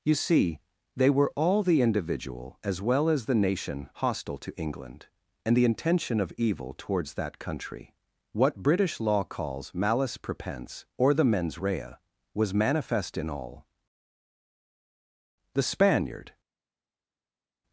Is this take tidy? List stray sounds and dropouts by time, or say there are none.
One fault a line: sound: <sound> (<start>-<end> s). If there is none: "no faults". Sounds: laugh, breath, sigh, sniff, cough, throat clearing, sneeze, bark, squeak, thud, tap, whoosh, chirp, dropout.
no faults